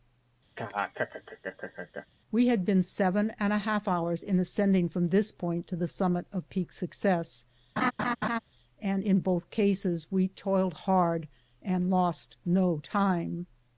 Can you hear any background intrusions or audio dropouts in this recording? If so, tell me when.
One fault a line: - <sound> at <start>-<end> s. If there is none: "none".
- laugh at 0.6-2.1 s
- laugh at 7.8-8.4 s